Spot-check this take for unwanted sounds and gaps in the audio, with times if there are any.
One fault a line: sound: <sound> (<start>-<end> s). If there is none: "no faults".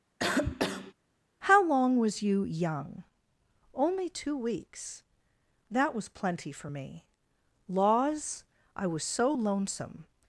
sound: cough (0.2-0.9 s)